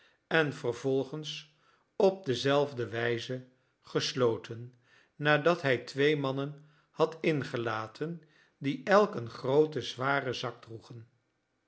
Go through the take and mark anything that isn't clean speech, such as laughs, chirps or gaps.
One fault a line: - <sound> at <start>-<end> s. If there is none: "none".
none